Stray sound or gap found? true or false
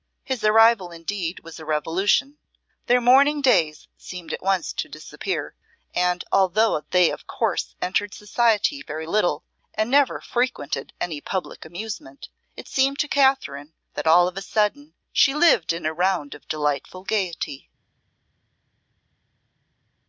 false